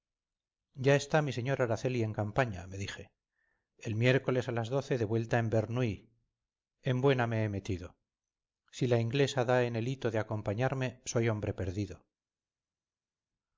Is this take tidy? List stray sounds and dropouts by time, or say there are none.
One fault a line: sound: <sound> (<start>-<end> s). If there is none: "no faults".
no faults